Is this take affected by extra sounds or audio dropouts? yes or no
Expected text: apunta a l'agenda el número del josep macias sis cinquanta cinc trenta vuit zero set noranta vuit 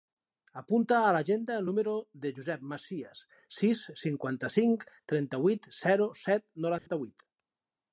yes